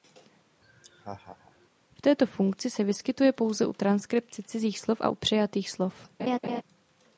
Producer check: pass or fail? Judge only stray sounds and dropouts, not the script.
fail